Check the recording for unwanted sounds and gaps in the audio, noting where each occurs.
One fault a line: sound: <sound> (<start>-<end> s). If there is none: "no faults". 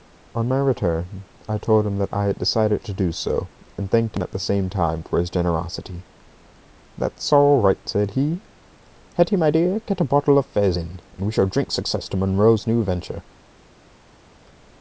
no faults